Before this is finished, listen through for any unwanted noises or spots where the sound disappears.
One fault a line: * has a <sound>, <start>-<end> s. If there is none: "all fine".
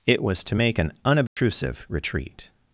* has a dropout, 1.3-1.4 s